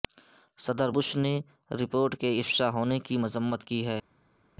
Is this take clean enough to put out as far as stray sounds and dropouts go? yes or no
yes